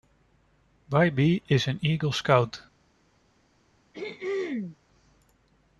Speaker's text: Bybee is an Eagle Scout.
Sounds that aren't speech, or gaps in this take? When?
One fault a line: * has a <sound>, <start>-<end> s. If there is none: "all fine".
* has a throat clearing, 3.9-4.8 s